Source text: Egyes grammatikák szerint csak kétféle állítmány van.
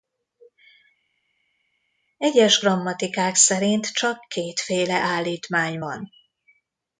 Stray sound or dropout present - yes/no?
no